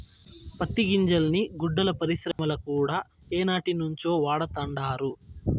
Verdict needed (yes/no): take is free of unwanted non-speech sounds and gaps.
no